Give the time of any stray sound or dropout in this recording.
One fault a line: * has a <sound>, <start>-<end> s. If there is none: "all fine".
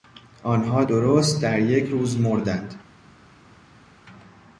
all fine